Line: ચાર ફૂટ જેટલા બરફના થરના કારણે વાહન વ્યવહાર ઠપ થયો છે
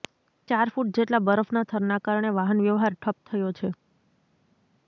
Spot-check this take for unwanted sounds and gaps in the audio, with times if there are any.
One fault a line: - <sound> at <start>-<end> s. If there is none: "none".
none